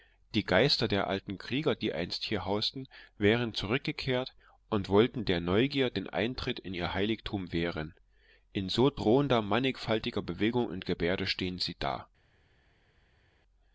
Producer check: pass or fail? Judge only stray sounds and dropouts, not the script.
pass